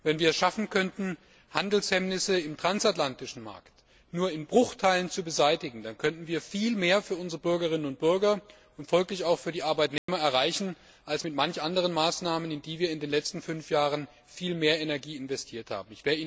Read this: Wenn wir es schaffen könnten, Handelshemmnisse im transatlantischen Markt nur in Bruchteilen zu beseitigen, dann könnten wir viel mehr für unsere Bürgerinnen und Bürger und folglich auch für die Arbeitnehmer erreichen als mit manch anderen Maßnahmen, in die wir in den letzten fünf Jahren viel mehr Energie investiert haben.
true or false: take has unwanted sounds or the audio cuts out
true